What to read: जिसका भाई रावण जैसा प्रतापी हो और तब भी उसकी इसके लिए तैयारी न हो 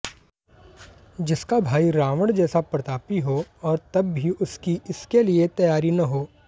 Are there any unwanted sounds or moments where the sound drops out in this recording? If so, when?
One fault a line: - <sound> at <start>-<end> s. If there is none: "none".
none